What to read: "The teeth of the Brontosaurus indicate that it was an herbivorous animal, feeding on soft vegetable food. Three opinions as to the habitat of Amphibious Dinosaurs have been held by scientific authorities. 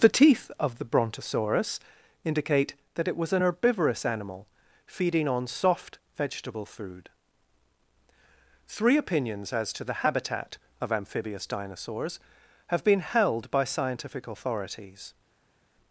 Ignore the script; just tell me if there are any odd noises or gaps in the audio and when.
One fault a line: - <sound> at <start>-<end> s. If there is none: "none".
none